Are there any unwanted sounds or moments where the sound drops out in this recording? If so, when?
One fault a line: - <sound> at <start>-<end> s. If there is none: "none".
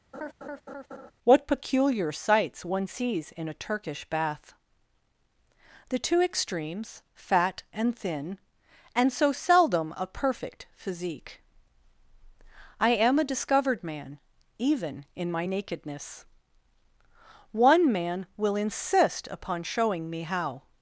- laugh at 0.1-1.1 s